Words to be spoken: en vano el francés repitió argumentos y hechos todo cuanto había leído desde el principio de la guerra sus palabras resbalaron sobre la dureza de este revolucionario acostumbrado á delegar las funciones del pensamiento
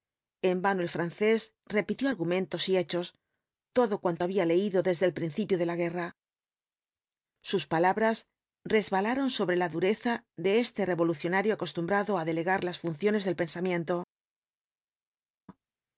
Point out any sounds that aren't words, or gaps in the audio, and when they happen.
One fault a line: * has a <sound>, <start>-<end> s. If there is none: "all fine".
all fine